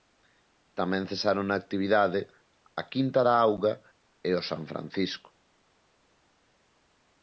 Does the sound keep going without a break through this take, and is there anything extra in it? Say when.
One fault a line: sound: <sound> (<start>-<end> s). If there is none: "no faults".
no faults